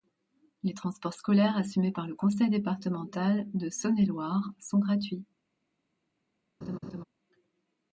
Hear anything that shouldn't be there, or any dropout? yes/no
yes